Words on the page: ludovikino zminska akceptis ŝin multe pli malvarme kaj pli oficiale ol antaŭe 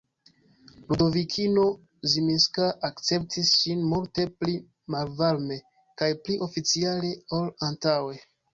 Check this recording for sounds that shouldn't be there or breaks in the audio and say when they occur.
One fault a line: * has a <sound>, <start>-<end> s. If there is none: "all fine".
all fine